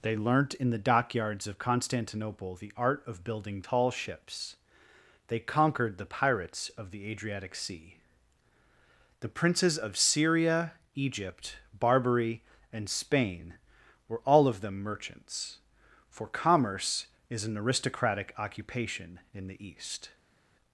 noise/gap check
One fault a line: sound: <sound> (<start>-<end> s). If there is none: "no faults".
no faults